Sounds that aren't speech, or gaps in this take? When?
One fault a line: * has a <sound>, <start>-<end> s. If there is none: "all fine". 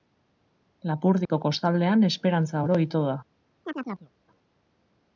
* has a dropout, 1.3-1.3 s
* has a chirp, 3.6-4.1 s